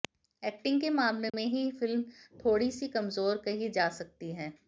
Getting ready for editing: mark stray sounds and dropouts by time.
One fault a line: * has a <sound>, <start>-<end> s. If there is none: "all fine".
* has a dropout, 1.3-1.3 s